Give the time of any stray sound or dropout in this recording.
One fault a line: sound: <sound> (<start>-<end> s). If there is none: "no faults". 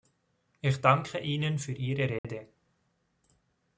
sound: dropout (2.2-2.2 s)